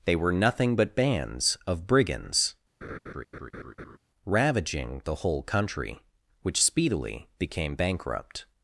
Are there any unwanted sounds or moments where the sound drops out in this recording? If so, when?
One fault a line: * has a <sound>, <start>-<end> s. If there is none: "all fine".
* has a laugh, 2.8-4.0 s